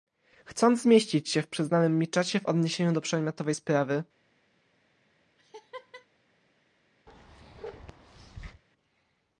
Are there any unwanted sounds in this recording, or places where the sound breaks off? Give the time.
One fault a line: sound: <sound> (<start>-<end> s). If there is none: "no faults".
sound: laugh (5.4-6.1 s)
sound: bark (7.1-8.6 s)